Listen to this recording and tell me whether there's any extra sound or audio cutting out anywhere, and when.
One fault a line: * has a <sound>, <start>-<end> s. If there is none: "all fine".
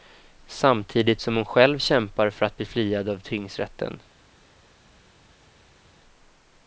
all fine